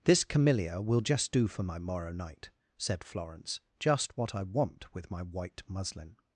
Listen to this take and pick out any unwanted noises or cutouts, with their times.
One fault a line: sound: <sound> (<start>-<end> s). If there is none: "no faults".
no faults